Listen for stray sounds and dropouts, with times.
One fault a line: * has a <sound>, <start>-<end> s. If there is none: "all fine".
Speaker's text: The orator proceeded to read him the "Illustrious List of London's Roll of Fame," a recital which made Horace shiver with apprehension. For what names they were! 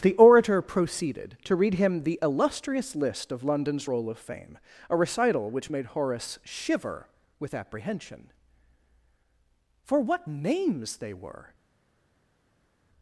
all fine